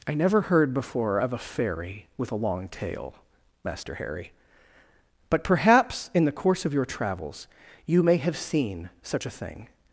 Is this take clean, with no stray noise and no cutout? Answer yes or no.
yes